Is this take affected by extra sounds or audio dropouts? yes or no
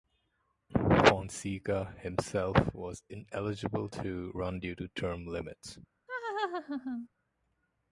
yes